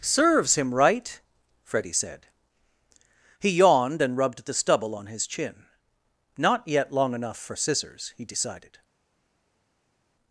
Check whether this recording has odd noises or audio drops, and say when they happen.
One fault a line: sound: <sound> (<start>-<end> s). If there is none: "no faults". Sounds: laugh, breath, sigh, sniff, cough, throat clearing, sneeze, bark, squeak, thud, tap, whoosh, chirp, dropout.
no faults